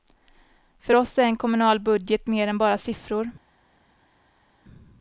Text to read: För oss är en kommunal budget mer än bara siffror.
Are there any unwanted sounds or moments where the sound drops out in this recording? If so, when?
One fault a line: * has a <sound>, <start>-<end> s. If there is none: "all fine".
all fine